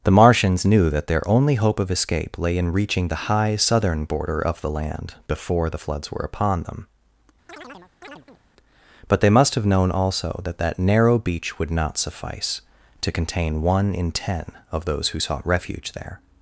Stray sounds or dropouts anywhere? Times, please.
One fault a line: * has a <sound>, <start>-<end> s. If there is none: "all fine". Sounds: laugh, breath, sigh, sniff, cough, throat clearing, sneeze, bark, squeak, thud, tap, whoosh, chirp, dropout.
* has a chirp, 7.5-8.4 s